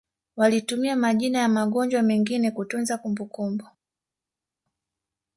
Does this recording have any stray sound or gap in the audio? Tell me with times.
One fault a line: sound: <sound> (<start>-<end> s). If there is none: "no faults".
no faults